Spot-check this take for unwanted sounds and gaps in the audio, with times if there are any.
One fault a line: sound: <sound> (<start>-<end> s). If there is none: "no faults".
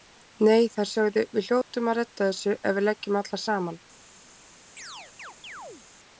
sound: dropout (1.6-1.7 s)
sound: chirp (4.8-5.9 s)